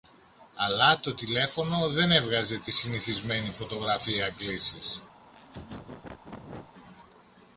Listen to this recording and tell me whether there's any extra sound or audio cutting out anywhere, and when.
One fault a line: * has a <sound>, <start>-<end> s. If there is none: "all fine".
* has a laugh, 5.2-6.7 s